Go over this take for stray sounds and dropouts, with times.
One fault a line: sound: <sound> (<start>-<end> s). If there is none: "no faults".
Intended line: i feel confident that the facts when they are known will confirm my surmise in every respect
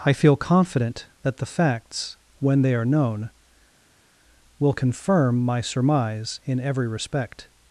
no faults